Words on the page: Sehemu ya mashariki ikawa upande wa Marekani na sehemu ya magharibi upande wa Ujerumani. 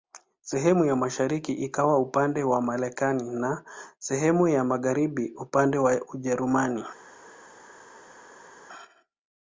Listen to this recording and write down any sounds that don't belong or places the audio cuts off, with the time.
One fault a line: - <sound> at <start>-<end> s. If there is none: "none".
none